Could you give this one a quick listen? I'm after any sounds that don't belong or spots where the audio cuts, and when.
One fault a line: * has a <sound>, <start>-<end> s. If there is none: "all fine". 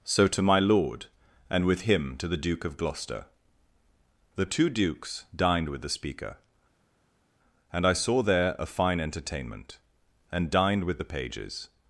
all fine